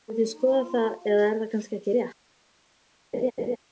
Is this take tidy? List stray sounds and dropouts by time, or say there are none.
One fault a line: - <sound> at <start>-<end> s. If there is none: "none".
- laugh at 3.1-3.6 s